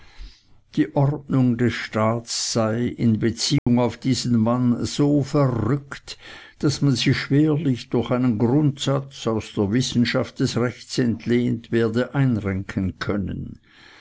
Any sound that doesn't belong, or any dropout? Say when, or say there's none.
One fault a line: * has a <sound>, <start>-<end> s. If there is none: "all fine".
* has a dropout, 3.6-3.7 s